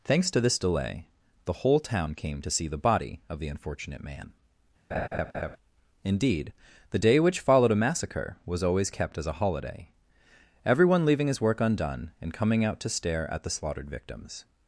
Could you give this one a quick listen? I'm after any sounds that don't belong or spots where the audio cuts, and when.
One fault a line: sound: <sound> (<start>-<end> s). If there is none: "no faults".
sound: laugh (4.9-5.6 s)